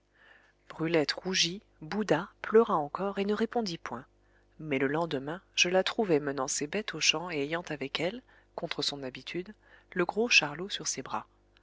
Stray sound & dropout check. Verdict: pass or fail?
pass